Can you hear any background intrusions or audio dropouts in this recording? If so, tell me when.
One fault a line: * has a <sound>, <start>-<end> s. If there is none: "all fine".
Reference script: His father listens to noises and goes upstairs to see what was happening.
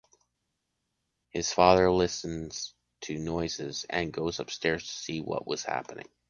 all fine